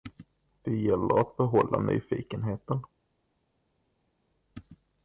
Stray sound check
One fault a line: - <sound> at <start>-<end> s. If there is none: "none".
none